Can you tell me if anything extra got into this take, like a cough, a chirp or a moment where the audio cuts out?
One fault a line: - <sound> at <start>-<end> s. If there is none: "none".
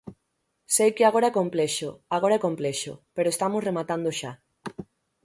none